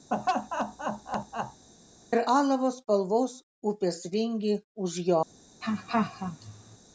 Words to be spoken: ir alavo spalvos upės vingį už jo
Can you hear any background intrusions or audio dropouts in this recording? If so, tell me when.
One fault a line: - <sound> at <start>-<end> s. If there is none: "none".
- laugh at 0.1-1.6 s
- laugh at 5.6-6.8 s